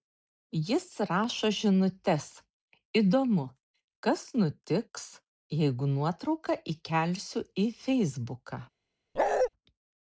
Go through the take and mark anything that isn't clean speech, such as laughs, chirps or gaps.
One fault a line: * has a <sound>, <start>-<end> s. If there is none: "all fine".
* has a bark, 9.2-9.5 s